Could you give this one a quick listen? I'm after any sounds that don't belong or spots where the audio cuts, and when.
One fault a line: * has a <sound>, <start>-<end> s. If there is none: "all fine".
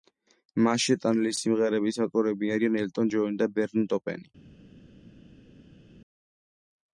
all fine